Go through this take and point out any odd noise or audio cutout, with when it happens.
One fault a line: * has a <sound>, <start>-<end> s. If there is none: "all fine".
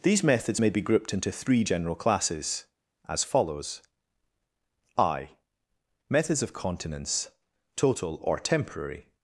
all fine